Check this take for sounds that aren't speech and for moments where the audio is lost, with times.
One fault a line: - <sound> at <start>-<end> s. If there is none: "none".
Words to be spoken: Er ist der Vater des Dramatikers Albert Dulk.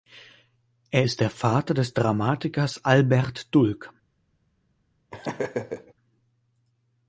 - laugh at 5.1-5.9 s